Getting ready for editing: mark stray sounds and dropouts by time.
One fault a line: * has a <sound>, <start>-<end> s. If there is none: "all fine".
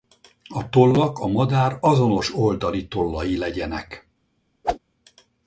* has a whoosh, 4.6-4.8 s